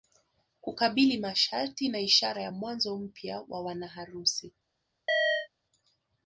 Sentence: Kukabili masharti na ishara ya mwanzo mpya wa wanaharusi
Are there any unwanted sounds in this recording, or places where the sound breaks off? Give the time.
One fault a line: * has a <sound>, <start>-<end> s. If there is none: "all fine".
* has a chirp, 5.1-5.5 s